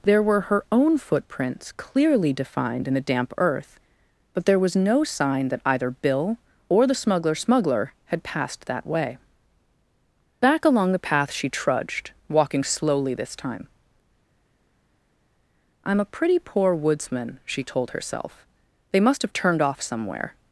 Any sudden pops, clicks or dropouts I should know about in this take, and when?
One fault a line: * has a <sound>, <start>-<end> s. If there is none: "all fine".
all fine